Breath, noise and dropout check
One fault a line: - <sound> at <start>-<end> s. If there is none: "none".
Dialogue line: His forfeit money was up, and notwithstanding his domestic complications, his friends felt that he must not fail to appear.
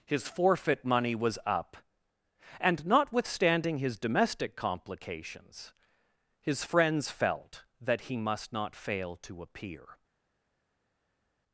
none